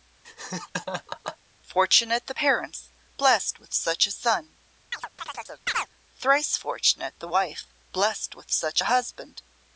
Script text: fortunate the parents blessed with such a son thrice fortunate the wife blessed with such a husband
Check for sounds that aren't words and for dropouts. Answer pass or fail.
fail